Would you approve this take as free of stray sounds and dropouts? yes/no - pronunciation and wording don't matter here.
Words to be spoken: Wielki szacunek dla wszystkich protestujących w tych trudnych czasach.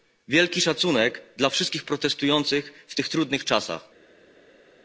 yes